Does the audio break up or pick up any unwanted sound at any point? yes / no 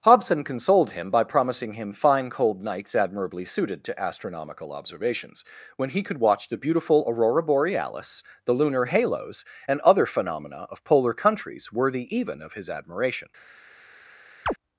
yes